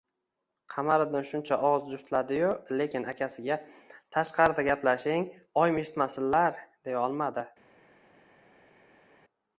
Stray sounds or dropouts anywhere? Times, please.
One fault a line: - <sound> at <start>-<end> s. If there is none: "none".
none